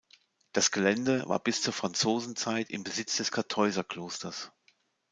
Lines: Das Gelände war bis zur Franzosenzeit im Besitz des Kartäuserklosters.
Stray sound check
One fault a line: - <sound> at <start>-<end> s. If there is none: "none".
none